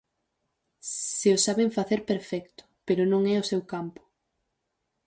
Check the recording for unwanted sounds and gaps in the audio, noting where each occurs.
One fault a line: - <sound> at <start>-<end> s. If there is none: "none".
none